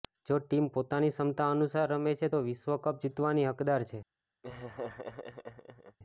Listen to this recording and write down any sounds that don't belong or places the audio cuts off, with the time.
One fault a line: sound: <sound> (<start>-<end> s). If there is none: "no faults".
sound: laugh (4.4-6.0 s)